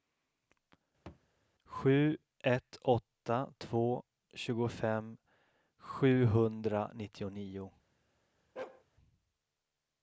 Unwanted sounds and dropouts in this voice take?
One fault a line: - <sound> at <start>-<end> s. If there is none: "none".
- thud at 1.1-1.3 s
- bark at 8.6-8.8 s